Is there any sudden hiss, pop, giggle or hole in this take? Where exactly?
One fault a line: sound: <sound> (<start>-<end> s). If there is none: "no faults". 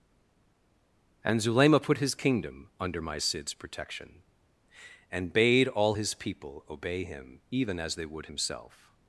no faults